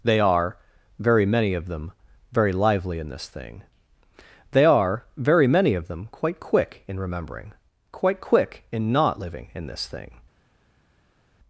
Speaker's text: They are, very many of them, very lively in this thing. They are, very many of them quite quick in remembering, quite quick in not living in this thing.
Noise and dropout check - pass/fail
pass